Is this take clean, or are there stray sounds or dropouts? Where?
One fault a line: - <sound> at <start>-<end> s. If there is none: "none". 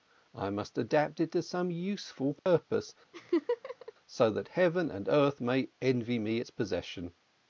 - dropout at 2.4-2.5 s
- laugh at 3.1-3.9 s